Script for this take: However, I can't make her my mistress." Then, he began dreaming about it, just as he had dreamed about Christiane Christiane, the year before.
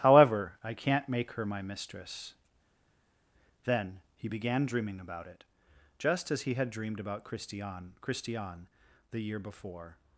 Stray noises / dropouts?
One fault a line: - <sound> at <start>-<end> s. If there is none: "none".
none